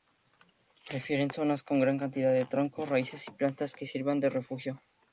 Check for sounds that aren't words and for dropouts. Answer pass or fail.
pass